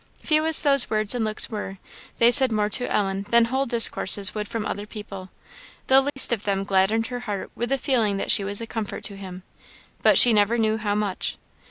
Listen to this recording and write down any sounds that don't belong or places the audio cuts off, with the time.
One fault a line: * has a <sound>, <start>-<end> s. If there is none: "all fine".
* has a dropout, 6.1-6.2 s